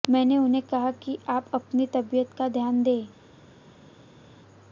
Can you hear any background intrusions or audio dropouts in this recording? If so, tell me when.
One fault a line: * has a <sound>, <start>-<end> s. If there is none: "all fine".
all fine